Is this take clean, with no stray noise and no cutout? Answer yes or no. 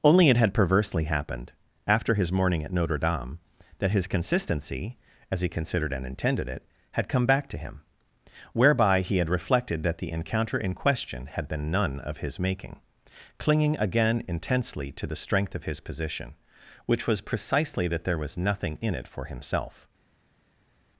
yes